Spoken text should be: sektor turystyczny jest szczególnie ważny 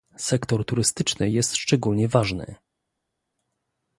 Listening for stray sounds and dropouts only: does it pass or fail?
pass